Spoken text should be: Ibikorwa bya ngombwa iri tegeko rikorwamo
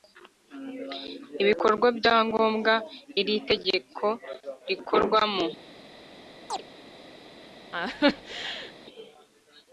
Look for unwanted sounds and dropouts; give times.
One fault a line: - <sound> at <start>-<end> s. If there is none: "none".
- chirp at 6.5-6.6 s
- laugh at 7.7-8.7 s